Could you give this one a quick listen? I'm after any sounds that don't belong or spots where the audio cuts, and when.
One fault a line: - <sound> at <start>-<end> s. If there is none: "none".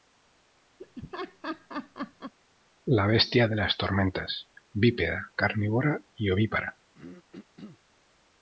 - laugh at 0.8-2.3 s
- throat clearing at 6.9-7.8 s